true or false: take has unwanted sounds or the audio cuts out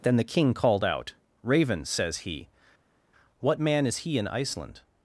false